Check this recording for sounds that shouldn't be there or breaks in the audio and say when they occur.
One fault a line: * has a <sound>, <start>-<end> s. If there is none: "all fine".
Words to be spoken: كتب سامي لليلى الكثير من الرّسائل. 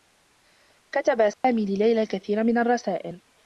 * has a dropout, 1.3-1.4 s